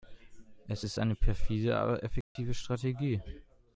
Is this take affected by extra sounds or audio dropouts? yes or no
yes